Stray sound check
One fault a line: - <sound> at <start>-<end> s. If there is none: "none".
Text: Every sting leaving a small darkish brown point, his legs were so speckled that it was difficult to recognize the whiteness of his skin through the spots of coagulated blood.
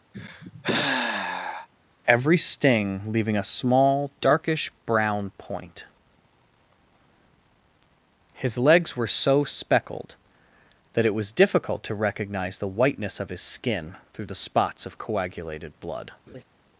- sigh at 0.1-1.7 s
- laugh at 16.3-16.4 s